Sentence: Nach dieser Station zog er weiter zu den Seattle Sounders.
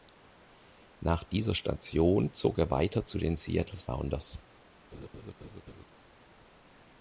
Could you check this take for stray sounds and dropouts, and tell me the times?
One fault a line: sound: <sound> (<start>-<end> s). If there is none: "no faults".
sound: laugh (4.9-5.9 s)